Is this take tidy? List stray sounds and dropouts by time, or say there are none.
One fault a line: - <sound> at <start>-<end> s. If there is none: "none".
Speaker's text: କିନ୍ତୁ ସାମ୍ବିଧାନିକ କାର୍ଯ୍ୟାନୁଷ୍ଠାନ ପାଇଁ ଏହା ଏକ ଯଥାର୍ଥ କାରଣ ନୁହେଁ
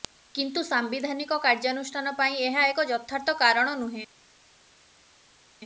none